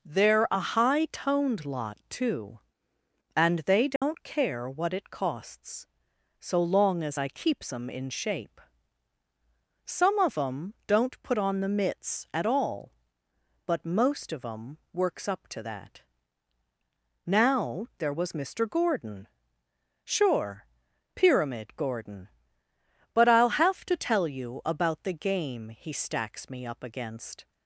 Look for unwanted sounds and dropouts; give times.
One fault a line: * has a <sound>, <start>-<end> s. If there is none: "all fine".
* has a dropout, 4.0-4.0 s